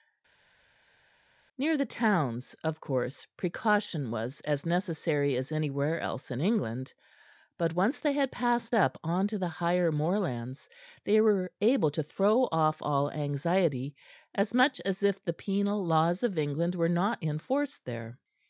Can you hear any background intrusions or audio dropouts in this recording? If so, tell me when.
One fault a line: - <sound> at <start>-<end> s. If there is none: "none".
none